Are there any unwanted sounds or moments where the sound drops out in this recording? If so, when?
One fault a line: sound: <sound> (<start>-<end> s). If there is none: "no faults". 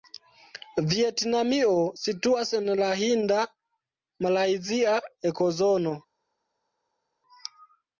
no faults